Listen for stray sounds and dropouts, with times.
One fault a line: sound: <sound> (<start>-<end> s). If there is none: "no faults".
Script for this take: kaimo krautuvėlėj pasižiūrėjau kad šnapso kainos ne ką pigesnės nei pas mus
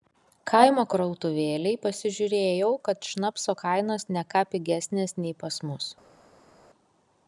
no faults